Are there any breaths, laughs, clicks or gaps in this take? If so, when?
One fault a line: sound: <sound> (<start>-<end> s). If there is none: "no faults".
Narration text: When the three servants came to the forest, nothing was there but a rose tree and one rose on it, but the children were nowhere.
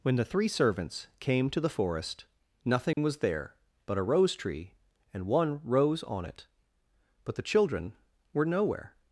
sound: dropout (2.9-3.0 s)